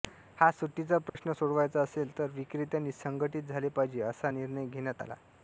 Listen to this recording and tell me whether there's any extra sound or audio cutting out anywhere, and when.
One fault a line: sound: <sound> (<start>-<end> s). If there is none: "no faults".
sound: dropout (1.1-1.2 s)